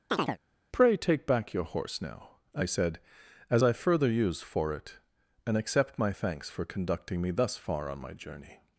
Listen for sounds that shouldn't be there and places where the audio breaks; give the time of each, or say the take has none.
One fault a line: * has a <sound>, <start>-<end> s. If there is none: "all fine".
* has a chirp, 0.1-0.4 s